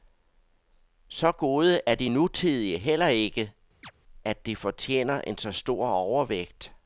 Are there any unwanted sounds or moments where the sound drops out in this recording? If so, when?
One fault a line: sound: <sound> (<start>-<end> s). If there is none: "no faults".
sound: chirp (3.8-3.9 s)